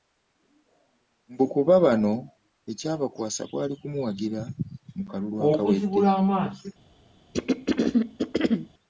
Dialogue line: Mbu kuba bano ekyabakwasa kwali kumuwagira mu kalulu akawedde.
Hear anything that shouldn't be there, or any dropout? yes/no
yes